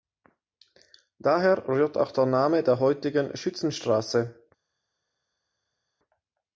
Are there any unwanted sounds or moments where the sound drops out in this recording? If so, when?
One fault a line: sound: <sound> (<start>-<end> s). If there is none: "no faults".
no faults